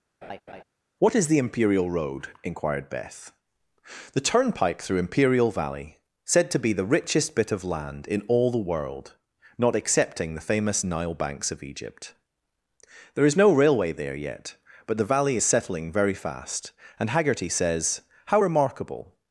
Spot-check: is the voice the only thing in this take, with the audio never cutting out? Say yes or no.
no